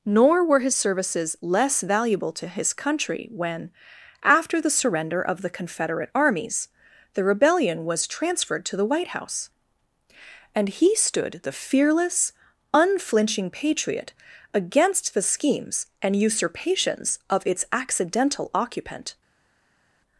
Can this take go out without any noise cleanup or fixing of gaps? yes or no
yes